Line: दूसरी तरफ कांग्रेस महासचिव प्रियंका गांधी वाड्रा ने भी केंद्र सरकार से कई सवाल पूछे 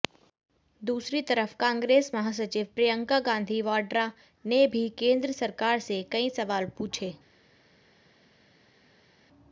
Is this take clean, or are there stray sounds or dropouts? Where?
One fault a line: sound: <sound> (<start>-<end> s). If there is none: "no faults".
no faults